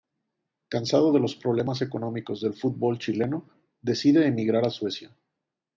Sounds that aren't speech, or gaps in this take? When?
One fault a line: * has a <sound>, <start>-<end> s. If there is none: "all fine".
all fine